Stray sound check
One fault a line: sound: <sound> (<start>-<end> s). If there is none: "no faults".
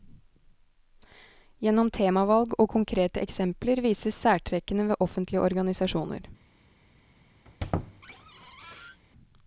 sound: squeak (7.4-9.0 s)